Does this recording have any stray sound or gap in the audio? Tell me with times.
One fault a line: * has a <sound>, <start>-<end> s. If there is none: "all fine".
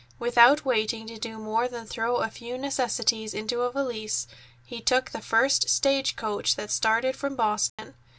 * has a dropout, 7.7-7.8 s